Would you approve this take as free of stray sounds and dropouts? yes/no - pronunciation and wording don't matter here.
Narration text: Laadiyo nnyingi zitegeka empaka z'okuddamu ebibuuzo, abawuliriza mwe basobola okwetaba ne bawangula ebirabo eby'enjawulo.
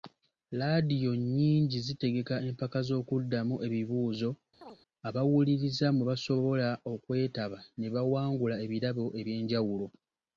no